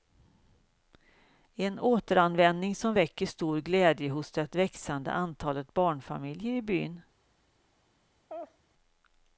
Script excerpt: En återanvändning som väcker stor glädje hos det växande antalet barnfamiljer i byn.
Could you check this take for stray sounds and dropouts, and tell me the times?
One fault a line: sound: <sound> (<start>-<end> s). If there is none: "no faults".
sound: laugh (8.3-8.6 s)